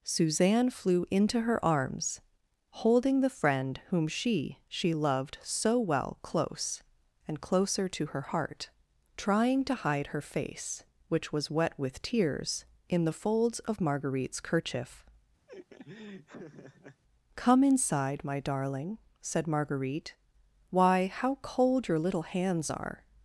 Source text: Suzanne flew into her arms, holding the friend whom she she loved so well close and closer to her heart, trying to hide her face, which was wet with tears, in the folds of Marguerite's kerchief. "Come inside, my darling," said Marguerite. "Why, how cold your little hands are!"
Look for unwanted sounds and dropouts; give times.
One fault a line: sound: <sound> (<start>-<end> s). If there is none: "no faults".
sound: laugh (15.5-17.0 s)